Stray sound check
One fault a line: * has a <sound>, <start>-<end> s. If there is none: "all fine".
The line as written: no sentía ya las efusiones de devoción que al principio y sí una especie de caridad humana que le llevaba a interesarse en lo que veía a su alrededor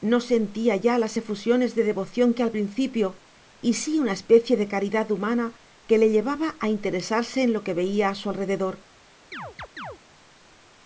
* has a chirp, 9.3-10.0 s